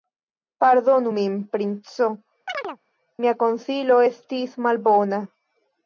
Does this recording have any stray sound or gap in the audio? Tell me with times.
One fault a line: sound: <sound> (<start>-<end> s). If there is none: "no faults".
sound: chirp (2.5-2.8 s)